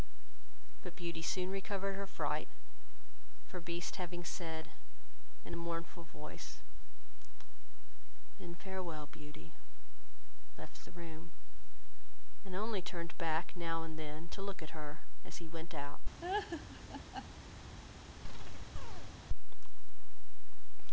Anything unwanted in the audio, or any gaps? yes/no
yes